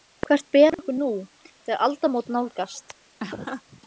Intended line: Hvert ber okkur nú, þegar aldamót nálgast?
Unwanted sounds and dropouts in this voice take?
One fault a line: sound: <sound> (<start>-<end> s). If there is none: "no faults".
sound: laugh (3.2-3.8 s)